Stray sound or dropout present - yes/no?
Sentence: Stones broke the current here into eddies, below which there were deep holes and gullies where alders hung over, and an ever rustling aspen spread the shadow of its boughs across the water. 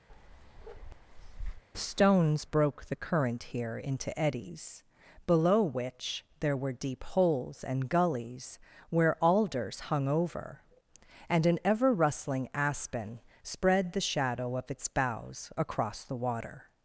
yes